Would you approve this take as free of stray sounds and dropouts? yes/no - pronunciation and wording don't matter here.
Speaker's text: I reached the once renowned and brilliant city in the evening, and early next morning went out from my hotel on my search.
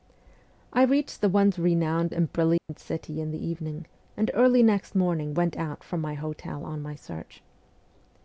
no